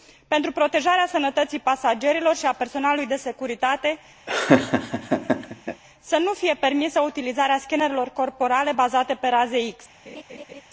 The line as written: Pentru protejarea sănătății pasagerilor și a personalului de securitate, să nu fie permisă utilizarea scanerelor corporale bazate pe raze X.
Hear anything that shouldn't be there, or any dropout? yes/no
yes